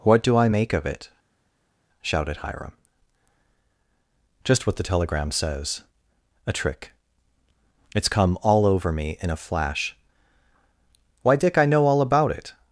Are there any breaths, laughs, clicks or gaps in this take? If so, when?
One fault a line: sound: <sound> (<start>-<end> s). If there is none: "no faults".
no faults